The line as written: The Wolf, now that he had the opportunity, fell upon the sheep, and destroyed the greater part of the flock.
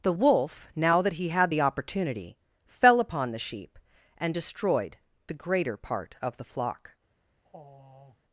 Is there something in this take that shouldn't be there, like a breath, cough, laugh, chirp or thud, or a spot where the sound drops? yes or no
yes